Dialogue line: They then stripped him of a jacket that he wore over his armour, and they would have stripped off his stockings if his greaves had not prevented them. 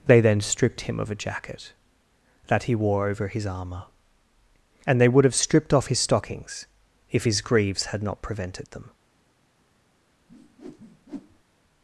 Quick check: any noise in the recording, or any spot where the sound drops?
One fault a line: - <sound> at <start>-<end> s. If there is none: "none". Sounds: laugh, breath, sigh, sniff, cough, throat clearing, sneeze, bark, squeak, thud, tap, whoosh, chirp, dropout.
- whoosh at 10.3-11.4 s